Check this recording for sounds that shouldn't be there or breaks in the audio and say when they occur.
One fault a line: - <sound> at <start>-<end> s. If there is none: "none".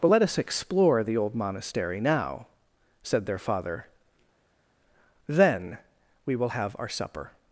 none